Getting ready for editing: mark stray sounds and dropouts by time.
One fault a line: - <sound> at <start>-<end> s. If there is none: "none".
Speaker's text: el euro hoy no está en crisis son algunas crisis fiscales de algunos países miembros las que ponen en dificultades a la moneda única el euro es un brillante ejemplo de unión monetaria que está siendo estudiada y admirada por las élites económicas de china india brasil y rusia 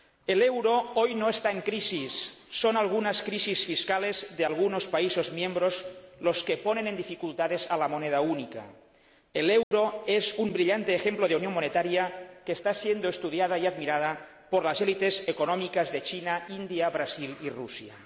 - dropout at 9.6-9.7 s